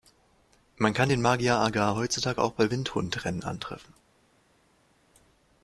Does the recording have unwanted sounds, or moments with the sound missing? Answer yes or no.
no